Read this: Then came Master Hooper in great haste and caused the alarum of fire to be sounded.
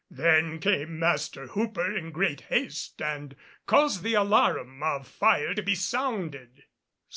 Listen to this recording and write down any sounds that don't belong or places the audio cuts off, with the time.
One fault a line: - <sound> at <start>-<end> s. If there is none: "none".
none